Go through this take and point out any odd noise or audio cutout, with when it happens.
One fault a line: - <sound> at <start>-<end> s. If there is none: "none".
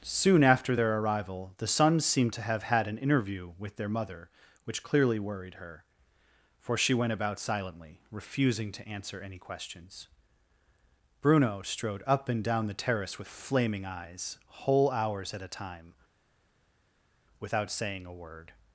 none